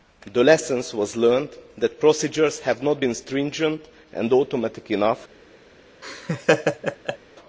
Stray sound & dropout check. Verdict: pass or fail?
fail